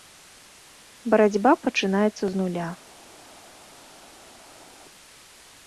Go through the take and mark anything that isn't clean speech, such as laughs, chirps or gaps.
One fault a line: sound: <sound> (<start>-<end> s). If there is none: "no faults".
no faults